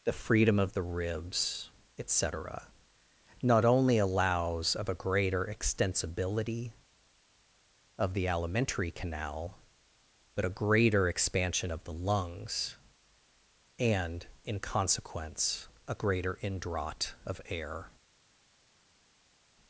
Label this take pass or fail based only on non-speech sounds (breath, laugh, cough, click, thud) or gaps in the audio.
pass